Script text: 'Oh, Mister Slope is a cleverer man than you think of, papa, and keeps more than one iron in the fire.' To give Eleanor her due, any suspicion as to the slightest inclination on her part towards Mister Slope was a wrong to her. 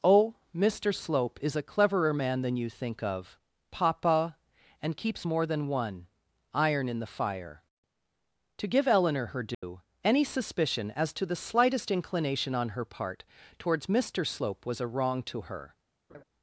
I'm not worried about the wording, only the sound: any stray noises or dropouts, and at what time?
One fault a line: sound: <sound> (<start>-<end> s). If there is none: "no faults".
sound: dropout (9.5-9.6 s)
sound: laugh (16.1-16.2 s)